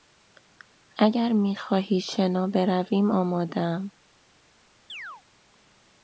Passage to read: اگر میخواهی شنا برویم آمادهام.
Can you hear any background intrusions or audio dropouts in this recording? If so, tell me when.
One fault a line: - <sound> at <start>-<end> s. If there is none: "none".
- chirp at 4.9-5.2 s